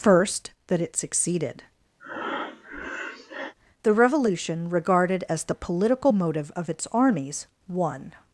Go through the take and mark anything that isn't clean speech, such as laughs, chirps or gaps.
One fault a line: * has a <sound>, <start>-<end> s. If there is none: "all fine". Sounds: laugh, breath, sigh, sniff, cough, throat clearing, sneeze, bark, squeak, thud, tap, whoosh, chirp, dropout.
* has a breath, 2.0-3.5 s